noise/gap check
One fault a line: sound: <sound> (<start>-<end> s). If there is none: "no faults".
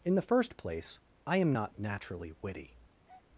sound: breath (3.0-3.3 s)